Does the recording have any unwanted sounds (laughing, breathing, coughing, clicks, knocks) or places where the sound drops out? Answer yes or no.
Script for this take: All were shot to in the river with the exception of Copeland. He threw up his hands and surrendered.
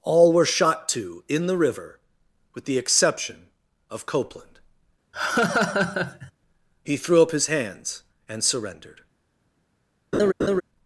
yes